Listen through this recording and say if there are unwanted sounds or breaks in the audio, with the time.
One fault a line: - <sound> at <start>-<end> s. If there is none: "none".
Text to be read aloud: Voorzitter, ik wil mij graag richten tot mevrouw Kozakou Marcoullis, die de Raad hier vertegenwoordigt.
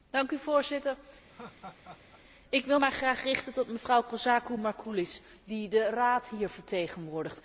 - laugh at 1.3-2.2 s